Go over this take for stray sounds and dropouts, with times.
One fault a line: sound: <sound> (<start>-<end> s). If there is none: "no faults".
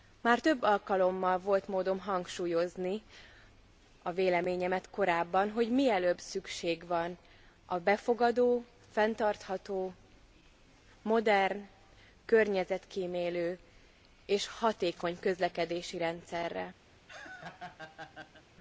sound: laugh (16.9-18.4 s)